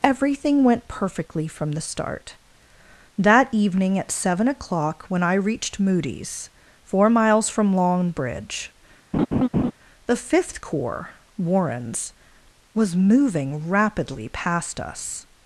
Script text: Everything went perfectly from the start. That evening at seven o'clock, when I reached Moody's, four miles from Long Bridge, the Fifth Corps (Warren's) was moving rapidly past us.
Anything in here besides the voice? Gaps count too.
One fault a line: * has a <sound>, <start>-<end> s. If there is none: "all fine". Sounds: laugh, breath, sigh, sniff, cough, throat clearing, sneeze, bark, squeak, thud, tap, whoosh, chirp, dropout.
* has a laugh, 9.1-9.7 s